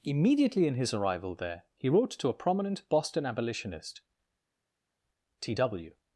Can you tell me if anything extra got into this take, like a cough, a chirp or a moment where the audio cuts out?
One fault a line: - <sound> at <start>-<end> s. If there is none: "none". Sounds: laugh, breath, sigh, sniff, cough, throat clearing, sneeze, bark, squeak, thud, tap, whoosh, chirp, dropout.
none